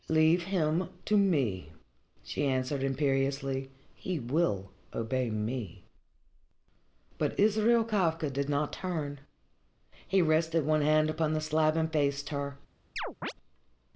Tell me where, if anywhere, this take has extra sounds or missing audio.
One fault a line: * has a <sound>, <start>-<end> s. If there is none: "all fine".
* has a chirp, 13.0-13.3 s